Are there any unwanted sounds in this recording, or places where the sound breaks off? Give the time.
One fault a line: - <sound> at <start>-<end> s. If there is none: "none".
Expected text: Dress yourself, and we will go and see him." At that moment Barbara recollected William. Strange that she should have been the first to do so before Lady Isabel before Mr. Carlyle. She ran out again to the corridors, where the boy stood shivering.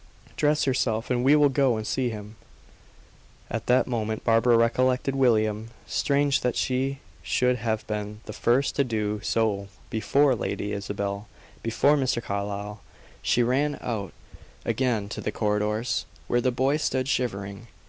none